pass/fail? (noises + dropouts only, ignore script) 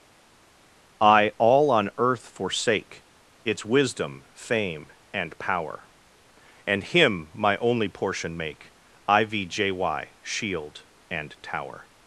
pass